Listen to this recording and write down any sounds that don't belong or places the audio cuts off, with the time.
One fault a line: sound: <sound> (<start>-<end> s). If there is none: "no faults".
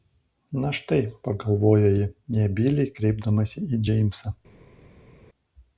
no faults